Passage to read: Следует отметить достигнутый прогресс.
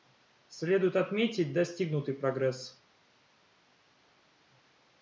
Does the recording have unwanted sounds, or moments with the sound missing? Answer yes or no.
no